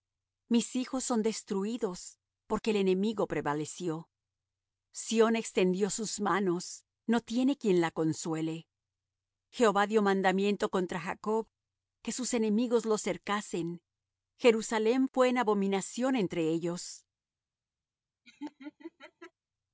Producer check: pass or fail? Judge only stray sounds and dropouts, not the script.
fail